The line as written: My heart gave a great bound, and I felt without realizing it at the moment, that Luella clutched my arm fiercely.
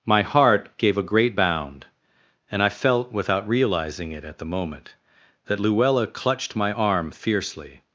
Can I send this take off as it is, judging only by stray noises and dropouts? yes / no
yes